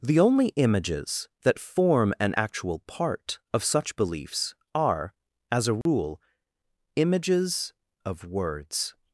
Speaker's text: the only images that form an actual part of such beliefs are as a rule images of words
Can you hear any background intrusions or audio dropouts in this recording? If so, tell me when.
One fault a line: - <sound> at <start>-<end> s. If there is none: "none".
- dropout at 5.8-5.9 s